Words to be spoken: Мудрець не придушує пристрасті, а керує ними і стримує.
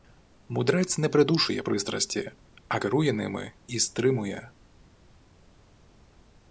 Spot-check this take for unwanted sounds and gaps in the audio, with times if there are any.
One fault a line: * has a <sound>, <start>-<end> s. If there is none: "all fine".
all fine